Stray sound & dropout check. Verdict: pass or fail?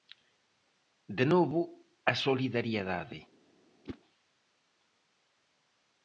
fail